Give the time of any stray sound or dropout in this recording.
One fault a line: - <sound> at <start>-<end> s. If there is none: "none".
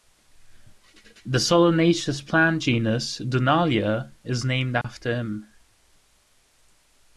- dropout at 4.8-4.8 s